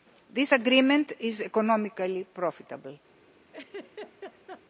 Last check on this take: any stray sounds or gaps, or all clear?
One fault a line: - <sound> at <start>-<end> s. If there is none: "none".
- laugh at 3.5-4.6 s